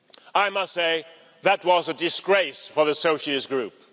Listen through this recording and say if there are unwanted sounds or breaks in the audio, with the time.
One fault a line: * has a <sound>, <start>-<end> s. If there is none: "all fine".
all fine